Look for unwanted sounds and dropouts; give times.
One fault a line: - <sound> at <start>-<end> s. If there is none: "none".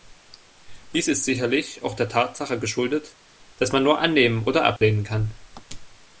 - dropout at 4.8-4.8 s